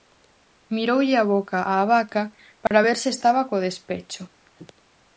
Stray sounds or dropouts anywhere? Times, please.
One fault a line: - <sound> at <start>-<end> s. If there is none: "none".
- dropout at 2.7-2.7 s